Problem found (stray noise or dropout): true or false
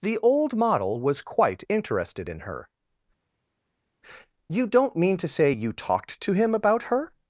false